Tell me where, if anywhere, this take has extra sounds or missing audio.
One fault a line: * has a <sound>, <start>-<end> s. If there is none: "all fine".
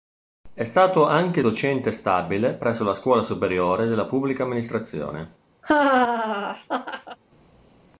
* has a laugh, 5.6-7.2 s